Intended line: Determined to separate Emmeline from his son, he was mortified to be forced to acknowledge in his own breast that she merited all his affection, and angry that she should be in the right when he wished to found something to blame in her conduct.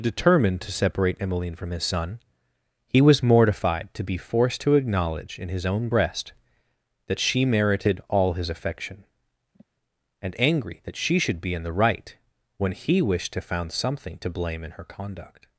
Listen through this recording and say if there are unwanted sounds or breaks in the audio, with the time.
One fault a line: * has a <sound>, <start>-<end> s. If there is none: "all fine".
* has a sigh, 9.5-9.7 s